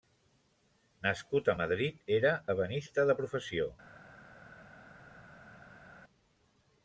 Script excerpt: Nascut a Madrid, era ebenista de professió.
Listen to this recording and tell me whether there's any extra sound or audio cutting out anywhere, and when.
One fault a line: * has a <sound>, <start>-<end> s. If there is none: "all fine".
all fine